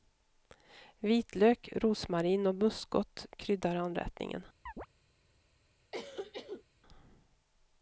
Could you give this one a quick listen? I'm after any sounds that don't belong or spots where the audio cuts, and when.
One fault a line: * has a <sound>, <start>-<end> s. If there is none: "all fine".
* has a chirp, 4.7-4.9 s
* has a cough, 5.9-6.6 s